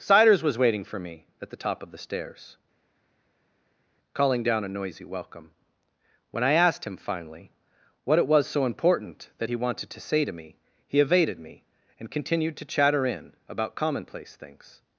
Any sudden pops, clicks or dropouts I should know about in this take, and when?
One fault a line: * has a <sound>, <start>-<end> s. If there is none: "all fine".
all fine